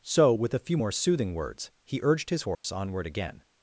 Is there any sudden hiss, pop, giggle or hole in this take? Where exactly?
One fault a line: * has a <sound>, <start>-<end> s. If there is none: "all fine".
* has a dropout, 2.5-2.6 s